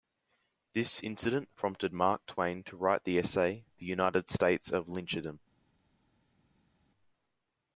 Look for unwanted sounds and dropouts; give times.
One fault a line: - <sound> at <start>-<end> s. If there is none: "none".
none